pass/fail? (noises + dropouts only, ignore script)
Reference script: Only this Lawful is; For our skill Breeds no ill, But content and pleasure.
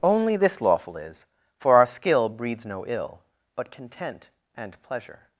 pass